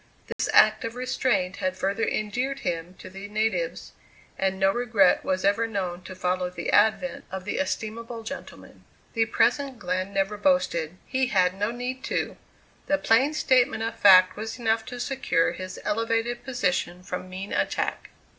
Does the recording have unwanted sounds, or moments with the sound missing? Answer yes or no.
yes